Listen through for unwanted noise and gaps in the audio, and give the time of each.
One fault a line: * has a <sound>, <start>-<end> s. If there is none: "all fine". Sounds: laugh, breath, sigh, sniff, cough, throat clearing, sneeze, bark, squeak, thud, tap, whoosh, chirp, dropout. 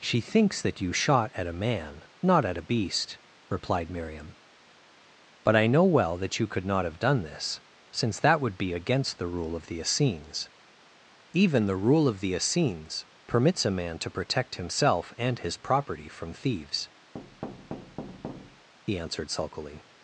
* has a thud, 17.1-18.7 s